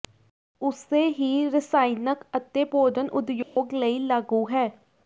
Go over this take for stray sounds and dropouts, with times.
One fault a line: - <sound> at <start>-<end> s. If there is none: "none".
- dropout at 3.4-3.6 s